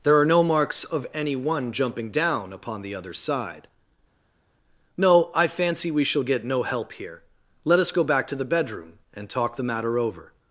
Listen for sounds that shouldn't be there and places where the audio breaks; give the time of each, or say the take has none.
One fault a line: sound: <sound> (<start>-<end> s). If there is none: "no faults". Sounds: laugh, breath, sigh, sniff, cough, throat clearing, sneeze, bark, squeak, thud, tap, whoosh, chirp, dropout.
no faults